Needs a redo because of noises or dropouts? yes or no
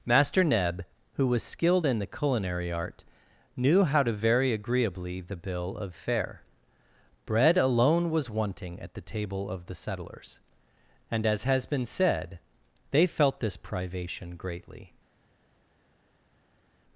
no